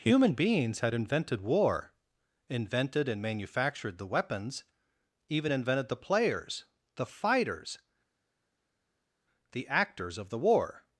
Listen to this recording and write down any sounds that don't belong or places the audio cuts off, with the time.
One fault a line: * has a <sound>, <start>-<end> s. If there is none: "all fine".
all fine